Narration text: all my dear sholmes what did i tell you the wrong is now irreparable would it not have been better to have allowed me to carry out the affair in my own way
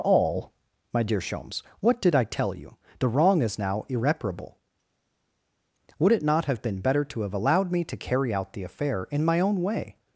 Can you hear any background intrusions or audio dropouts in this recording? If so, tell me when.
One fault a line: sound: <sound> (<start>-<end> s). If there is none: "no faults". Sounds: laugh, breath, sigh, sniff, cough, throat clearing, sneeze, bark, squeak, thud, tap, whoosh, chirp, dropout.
no faults